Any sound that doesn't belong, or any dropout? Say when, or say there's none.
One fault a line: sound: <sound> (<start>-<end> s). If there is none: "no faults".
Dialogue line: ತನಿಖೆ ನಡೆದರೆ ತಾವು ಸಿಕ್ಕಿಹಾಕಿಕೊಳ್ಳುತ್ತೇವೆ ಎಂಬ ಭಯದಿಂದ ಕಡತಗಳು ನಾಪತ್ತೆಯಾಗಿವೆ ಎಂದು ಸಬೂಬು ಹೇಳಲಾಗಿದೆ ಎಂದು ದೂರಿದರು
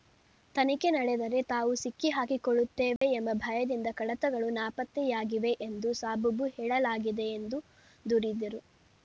sound: dropout (3.0-3.0 s)